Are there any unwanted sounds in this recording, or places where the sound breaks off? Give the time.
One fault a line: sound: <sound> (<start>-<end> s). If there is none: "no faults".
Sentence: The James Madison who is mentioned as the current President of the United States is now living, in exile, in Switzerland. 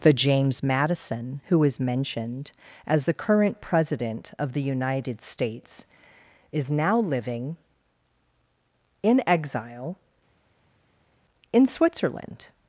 no faults